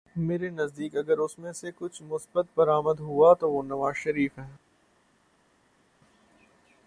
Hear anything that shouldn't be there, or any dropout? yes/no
no